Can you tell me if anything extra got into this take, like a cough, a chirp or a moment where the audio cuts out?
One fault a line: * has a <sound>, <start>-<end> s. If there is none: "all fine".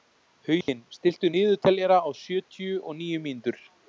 * has a dropout, 0.6-0.7 s